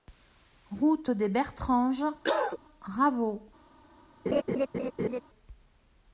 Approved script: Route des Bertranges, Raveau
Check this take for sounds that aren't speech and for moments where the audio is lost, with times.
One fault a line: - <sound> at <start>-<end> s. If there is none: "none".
- cough at 2.2-2.6 s
- laugh at 4.3-5.2 s